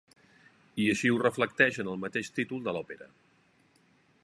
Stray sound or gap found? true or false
false